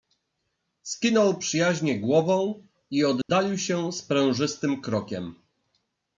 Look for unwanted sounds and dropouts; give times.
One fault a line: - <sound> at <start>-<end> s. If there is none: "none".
- dropout at 3.2-3.3 s